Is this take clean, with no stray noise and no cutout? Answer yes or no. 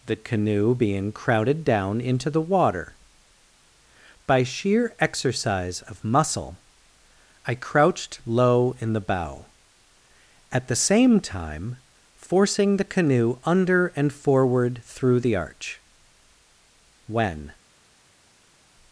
yes